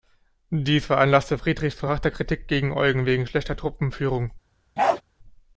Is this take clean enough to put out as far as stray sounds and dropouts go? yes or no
no